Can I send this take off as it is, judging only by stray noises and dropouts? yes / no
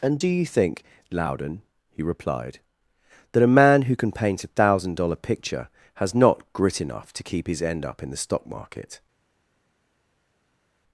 yes